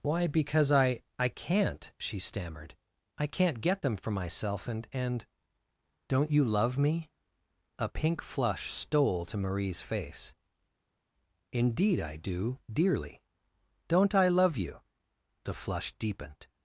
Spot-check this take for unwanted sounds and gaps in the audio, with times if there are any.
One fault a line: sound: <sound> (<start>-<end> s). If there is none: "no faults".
no faults